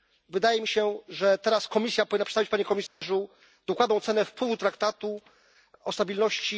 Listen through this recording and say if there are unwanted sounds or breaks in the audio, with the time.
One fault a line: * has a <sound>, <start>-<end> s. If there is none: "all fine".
* has a dropout, 2.9-3.0 s